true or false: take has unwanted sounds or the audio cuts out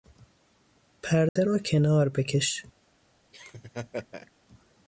true